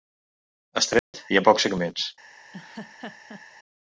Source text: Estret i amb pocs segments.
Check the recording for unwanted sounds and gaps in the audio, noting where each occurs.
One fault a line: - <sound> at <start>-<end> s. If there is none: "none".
- dropout at 1.0-1.1 s
- laugh at 2.5-3.4 s